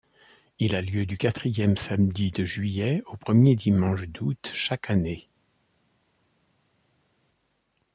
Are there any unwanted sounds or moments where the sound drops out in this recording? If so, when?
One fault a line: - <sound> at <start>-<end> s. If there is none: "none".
none